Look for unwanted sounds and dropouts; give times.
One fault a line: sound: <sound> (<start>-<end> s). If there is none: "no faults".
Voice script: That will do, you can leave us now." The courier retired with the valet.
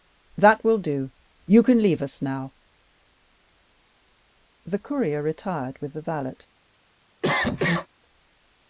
sound: cough (7.2-7.9 s)